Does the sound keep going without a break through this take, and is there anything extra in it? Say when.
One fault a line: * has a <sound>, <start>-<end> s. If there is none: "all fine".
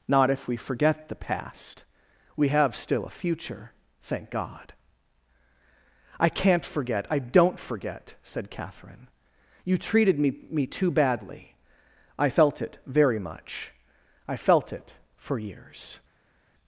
all fine